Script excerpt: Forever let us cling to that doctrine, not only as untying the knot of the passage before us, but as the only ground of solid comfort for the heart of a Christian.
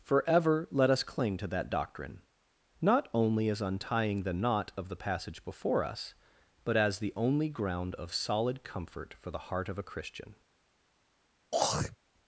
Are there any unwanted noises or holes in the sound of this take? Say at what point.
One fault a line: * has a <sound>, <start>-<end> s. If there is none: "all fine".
* has a throat clearing, 11.5-12.0 s